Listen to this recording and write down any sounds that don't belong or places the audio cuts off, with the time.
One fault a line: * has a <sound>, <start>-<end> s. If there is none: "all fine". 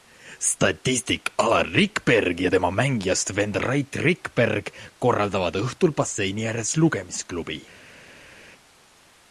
all fine